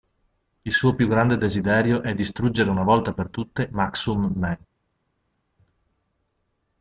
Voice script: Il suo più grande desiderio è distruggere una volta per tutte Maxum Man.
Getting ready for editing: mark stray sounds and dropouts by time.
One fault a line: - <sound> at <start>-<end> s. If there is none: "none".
none